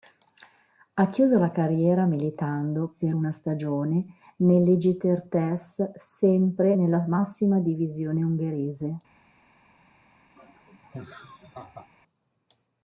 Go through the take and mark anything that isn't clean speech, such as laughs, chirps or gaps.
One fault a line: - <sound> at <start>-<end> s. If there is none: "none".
- laugh at 10.4-11.9 s